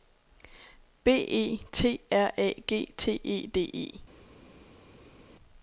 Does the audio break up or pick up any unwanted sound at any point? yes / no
no